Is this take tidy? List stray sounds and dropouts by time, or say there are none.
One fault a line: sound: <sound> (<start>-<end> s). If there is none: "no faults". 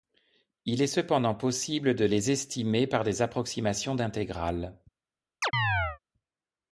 sound: chirp (5.4-6.0 s)